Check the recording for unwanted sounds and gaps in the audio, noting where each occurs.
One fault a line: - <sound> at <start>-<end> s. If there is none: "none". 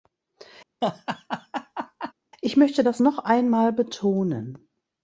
- laugh at 0.8-2.1 s